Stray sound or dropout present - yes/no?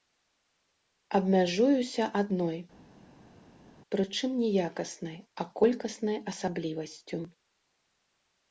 no